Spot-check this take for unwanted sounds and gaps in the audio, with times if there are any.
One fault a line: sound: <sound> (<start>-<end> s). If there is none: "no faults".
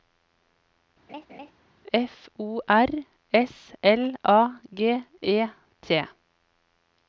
sound: laugh (1.1-1.5 s)